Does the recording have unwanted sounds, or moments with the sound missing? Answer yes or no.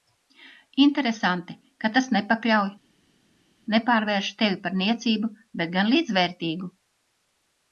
no